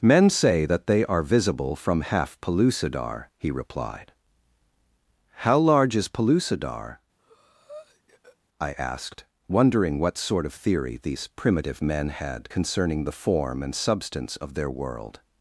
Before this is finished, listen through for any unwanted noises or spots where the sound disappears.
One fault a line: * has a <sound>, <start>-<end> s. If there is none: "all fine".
* has a breath, 7.2-8.4 s